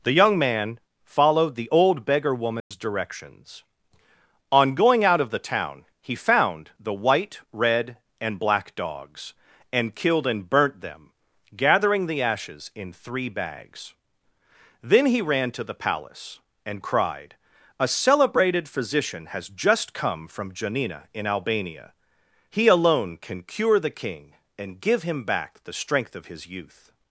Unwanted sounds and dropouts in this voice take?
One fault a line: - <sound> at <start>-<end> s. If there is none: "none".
- dropout at 2.6-2.7 s